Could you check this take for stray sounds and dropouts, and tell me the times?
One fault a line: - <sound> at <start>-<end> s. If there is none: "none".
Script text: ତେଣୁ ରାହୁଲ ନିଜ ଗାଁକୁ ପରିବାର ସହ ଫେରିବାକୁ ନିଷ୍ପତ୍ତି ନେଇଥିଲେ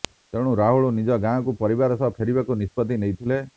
none